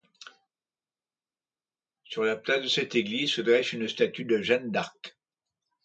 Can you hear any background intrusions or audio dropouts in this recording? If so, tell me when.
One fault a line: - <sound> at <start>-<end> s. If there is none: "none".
none